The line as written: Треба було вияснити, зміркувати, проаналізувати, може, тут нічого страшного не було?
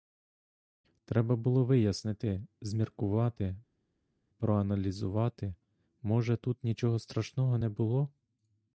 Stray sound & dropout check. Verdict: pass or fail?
pass